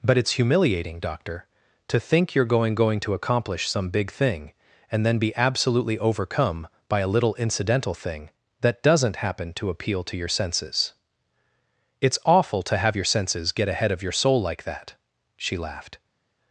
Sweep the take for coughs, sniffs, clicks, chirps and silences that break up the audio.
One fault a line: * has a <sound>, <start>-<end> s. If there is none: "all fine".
all fine